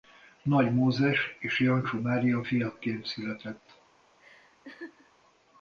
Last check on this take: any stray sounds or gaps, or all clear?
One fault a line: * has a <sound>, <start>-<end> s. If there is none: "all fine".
* has a laugh, 4.2-5.1 s